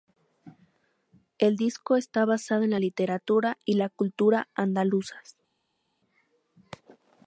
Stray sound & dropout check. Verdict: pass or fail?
pass